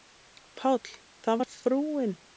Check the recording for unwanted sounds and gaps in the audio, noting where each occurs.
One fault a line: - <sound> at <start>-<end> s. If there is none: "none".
none